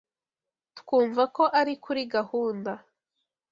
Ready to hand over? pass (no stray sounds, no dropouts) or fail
pass